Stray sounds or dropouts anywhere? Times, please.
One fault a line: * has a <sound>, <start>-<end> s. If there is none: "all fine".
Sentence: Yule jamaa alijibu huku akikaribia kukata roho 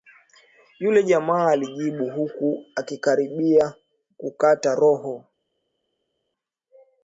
all fine